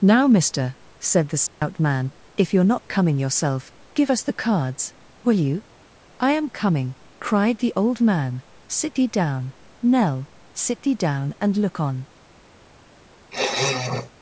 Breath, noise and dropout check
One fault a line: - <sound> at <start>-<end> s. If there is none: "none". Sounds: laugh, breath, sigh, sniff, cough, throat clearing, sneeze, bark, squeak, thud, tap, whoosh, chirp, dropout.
- dropout at 1.5-1.6 s
- sniff at 13.3-14.1 s